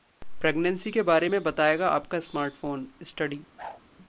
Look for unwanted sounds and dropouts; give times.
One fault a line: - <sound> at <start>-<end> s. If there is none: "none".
- whoosh at 3.6-3.8 s